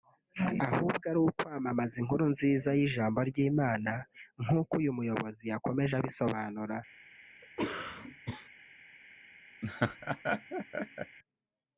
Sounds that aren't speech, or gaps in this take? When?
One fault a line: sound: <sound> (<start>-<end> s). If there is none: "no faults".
sound: cough (7.4-8.5 s)
sound: laugh (9.6-11.2 s)